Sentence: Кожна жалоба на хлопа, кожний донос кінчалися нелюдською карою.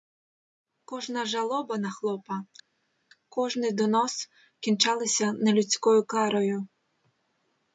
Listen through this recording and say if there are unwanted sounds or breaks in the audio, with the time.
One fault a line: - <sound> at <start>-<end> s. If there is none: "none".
none